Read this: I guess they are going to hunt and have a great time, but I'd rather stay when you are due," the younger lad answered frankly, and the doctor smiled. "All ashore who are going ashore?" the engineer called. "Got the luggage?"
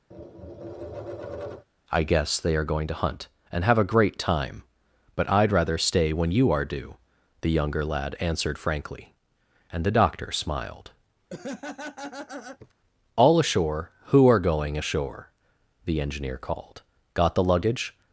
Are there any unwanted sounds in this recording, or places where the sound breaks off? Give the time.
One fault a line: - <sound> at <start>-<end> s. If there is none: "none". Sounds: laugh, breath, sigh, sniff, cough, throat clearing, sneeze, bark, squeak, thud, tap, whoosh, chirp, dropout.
- tap at 0.1-1.7 s
- laugh at 11.3-12.7 s